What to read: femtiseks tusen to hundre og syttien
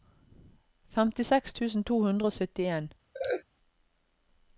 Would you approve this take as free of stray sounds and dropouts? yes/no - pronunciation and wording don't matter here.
no